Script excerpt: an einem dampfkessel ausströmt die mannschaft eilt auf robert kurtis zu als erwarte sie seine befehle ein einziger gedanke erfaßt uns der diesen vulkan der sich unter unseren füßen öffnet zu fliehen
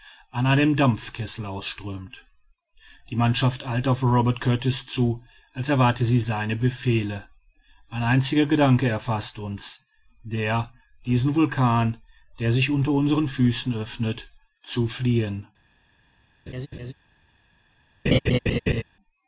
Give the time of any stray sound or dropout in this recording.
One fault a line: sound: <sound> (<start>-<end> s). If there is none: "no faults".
sound: laugh (16.5-16.9 s)
sound: laugh (18.1-18.8 s)